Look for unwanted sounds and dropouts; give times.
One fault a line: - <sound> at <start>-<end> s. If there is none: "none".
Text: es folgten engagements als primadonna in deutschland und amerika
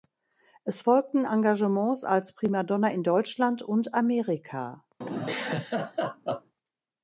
- laugh at 5.0-6.5 s